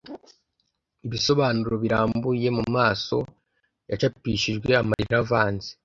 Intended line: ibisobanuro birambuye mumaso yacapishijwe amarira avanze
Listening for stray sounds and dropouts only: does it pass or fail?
fail